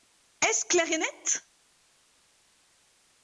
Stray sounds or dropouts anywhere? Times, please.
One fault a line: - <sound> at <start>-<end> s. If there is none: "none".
none